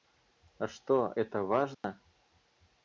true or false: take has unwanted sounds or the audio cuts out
true